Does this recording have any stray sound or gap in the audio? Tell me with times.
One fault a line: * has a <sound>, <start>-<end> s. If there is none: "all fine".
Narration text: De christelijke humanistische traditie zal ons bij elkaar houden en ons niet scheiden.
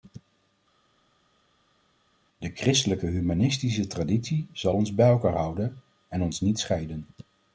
all fine